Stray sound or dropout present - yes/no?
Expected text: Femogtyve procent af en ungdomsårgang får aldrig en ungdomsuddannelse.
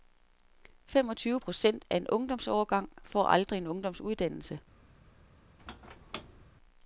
yes